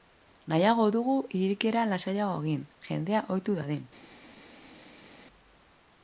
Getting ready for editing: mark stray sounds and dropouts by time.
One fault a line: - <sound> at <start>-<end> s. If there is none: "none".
none